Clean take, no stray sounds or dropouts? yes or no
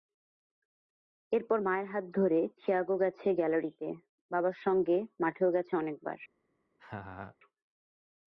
no